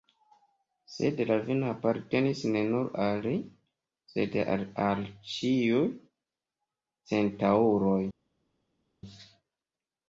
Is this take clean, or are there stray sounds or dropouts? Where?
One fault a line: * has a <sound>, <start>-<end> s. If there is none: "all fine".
all fine